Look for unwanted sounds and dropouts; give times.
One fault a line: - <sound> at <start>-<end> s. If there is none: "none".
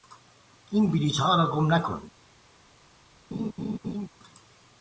- laugh at 3.3-4.1 s